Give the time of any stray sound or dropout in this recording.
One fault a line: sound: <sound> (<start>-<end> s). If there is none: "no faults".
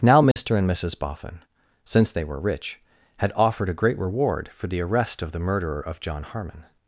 sound: dropout (0.3-0.4 s)